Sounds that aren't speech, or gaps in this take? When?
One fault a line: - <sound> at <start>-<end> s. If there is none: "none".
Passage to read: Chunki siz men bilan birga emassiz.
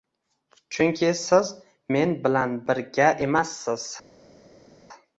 none